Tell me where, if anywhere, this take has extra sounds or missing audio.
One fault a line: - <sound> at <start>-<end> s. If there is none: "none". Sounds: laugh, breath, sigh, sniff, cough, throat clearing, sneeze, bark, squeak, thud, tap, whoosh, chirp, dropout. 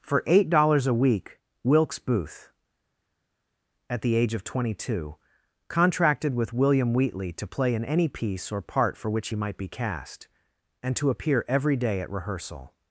none